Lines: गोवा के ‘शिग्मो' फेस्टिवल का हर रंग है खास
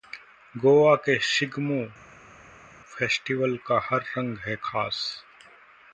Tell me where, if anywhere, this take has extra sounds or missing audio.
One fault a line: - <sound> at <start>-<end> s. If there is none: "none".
none